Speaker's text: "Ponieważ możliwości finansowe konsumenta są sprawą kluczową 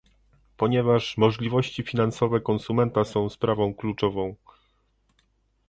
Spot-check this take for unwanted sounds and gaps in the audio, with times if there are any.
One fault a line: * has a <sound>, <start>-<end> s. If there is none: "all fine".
all fine